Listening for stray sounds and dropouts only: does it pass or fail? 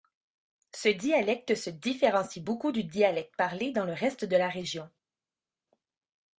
pass